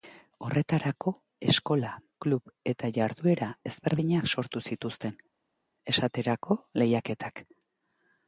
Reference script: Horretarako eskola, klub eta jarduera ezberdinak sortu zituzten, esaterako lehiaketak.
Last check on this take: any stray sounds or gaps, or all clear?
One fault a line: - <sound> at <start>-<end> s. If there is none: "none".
none